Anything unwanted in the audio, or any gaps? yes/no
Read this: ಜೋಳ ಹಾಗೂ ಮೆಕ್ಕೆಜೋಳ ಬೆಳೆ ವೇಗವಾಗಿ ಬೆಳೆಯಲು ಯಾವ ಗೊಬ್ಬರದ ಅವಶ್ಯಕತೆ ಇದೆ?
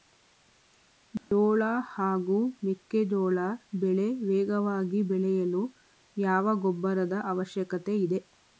yes